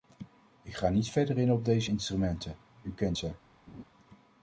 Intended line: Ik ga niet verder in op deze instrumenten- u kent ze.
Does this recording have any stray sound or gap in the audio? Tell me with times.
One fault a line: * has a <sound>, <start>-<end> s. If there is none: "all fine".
* has a laugh, 3.7-3.8 s